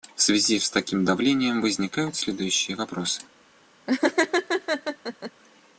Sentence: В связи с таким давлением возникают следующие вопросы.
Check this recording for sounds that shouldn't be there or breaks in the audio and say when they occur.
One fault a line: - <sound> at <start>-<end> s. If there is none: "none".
- laugh at 3.9-5.3 s